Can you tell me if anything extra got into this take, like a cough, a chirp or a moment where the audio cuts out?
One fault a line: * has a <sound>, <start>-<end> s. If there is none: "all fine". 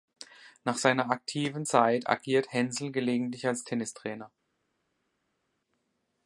all fine